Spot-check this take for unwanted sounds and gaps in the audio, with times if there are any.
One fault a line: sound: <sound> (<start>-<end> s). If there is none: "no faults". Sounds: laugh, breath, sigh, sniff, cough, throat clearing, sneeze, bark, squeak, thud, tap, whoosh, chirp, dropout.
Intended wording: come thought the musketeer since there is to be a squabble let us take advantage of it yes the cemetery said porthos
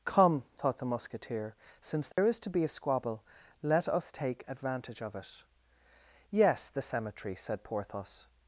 sound: dropout (2.1-2.2 s)